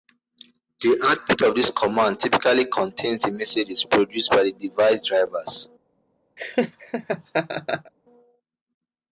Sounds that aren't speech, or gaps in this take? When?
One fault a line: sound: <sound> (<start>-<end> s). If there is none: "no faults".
sound: laugh (6.4-7.9 s)